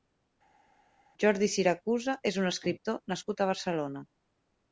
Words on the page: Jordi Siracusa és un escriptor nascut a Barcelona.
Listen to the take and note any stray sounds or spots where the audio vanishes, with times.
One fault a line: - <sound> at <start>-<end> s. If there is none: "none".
none